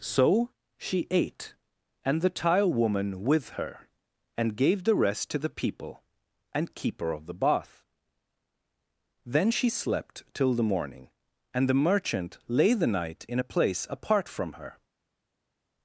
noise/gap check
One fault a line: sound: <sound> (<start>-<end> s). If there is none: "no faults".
no faults